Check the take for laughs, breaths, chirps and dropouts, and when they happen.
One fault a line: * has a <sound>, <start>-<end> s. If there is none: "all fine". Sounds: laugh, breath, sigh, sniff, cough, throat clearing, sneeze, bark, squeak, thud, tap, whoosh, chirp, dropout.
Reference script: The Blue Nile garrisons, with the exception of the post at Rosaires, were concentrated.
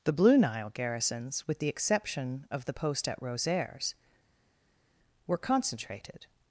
all fine